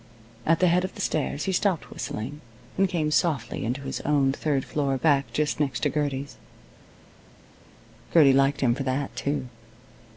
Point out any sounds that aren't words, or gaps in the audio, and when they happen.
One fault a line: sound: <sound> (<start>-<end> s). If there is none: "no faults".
no faults